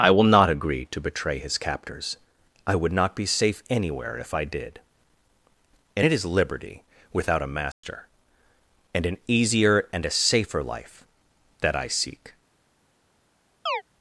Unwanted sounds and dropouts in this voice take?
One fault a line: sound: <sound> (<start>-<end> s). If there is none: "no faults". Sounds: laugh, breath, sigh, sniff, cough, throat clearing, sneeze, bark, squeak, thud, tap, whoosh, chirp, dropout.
sound: dropout (7.7-7.8 s)
sound: chirp (13.7-13.8 s)